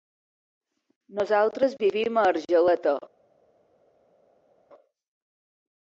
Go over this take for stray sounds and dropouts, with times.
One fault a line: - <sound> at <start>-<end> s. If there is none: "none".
none